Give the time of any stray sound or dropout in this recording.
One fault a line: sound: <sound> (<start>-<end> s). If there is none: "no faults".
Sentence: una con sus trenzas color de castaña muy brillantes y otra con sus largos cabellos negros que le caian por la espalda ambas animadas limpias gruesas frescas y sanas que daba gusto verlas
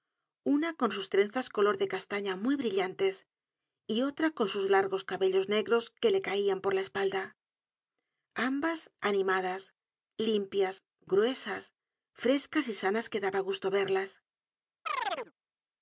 sound: chirp (14.9-15.3 s)